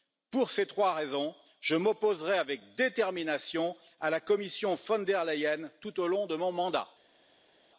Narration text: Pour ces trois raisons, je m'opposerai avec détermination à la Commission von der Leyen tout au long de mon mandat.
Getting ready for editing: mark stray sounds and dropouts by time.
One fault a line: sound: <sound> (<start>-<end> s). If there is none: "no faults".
no faults